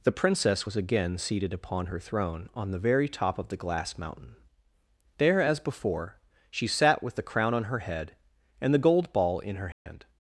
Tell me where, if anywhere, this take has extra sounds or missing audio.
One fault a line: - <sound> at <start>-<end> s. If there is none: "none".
- dropout at 9.7-9.9 s